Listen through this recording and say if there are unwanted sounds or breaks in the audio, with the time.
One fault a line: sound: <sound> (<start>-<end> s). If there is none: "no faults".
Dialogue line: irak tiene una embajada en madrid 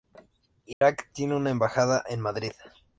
sound: dropout (0.7-0.8 s)